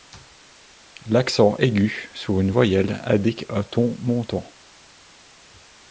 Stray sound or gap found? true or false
false